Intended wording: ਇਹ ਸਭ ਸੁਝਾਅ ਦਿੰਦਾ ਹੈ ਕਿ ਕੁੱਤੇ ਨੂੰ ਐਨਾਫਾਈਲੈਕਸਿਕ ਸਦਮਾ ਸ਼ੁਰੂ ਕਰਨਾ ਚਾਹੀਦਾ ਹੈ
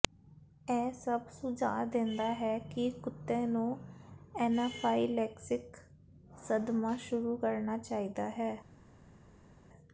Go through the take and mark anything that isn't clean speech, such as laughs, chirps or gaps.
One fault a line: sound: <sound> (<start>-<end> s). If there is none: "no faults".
no faults